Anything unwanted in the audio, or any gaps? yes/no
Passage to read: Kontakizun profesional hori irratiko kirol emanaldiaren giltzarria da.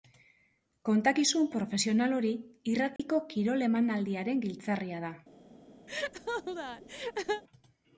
yes